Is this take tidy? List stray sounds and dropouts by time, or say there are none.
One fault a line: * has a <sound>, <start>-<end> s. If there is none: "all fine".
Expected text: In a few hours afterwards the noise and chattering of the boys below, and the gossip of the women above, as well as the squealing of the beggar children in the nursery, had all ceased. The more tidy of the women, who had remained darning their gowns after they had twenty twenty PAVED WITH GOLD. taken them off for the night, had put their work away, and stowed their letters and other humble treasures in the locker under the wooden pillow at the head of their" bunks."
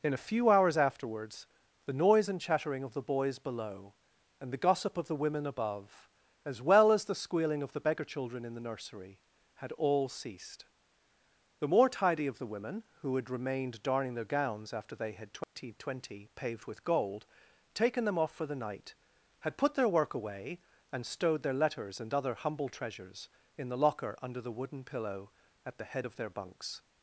* has a dropout, 15.4-15.6 s